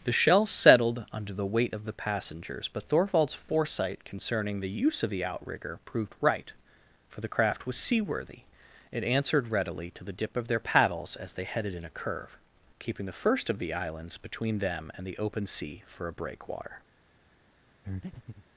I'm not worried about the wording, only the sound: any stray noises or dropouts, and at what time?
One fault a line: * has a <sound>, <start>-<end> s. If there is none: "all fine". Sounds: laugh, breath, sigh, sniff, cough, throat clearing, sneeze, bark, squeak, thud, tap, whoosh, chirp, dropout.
* has a breath, 17.8-18.5 s